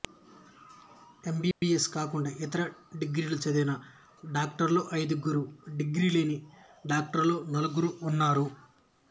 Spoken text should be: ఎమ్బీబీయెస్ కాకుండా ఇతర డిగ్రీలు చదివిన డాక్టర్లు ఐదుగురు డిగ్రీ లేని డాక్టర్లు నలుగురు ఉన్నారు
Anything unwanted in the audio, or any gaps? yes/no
yes